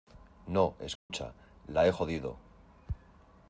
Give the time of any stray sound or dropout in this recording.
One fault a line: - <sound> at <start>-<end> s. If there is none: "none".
- dropout at 1.0-1.1 s